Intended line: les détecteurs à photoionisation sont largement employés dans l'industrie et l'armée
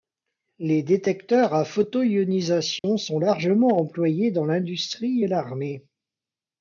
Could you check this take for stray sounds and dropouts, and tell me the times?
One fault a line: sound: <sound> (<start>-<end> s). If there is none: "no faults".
sound: dropout (2.8-2.8 s)